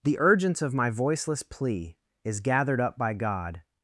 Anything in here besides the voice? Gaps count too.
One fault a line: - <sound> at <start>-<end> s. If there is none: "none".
none